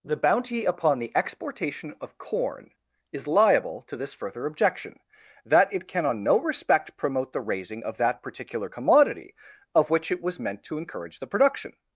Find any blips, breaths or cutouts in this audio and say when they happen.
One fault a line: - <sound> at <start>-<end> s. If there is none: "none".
none